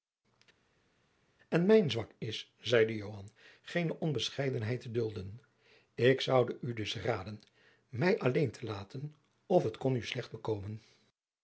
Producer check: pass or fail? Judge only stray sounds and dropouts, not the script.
pass